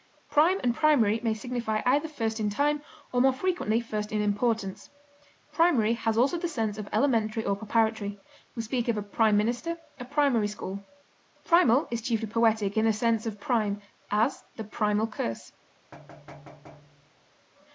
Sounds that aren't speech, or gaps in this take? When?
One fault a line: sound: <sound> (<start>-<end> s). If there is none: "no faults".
sound: thud (15.9-17.3 s)